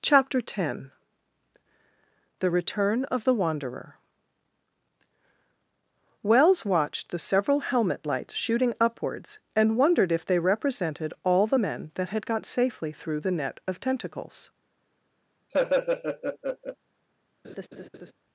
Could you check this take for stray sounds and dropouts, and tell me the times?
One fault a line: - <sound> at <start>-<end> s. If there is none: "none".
- laugh at 15.5-16.8 s
- laugh at 17.4-18.1 s